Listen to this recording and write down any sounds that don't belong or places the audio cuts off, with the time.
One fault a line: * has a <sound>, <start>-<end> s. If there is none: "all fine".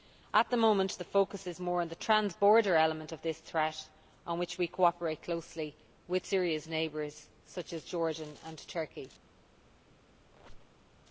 * has a squeak, 10.3-10.9 s